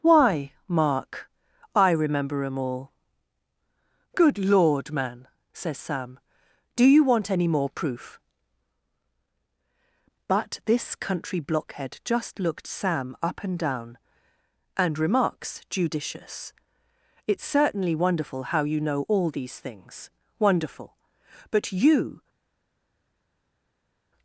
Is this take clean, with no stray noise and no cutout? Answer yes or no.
yes